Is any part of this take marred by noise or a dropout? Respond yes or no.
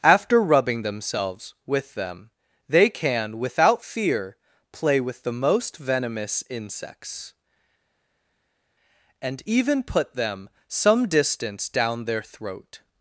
no